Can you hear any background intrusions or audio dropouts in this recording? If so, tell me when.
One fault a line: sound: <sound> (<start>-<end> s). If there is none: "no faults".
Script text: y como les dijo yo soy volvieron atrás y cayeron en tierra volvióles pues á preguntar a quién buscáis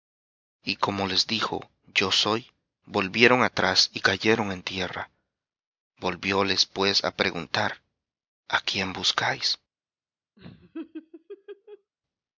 sound: laugh (10.4-11.9 s)